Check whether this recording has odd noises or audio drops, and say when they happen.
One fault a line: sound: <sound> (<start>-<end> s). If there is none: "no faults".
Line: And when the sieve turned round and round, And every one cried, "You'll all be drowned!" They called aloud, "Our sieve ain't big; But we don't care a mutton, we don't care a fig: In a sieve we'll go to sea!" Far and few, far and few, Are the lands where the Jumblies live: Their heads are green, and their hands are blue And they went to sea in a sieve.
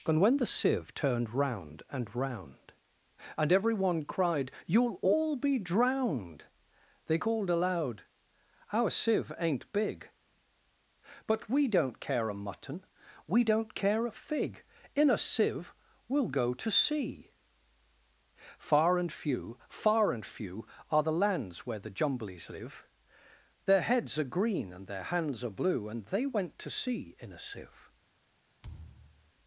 sound: thud (28.6-29.3 s)